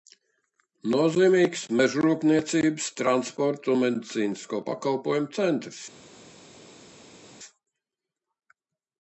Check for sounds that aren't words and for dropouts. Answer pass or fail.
pass